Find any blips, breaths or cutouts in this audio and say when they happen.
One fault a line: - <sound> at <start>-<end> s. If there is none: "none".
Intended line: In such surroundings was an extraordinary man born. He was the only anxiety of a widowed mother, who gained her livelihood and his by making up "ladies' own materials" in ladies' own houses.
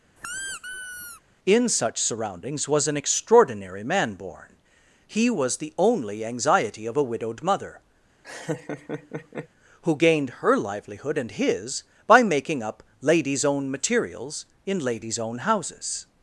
- squeak at 0.2-1.2 s
- laugh at 8.2-9.5 s